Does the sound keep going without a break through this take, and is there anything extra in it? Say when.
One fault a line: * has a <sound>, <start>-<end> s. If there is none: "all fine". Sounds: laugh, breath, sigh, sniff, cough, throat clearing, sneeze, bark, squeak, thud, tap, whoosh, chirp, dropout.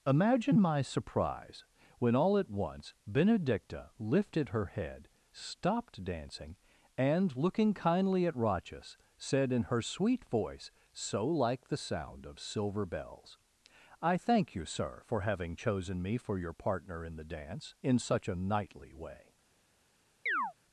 * has a chirp, 20.3-20.5 s